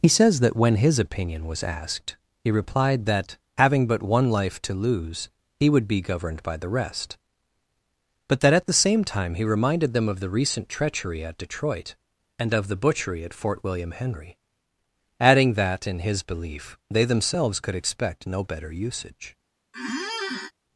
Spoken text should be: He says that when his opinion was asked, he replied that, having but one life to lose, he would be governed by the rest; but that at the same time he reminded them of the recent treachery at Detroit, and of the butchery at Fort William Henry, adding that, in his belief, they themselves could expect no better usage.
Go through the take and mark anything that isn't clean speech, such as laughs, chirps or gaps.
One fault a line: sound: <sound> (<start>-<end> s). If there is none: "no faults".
sound: squeak (19.7-20.5 s)